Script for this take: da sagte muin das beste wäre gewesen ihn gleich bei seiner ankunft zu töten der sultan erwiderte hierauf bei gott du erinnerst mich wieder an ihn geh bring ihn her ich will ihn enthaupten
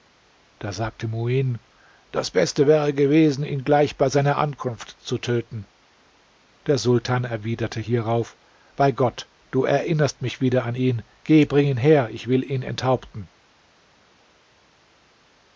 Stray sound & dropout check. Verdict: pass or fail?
pass